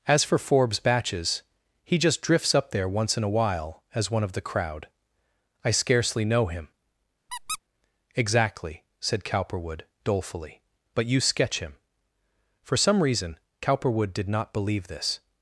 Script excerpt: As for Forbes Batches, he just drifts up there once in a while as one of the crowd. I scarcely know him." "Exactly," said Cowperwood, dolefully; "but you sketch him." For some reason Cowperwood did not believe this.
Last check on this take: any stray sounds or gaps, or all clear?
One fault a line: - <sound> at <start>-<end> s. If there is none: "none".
- squeak at 7.3-7.6 s